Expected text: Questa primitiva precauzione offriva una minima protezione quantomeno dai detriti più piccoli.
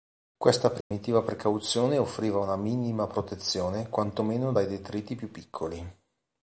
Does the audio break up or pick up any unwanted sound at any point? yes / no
yes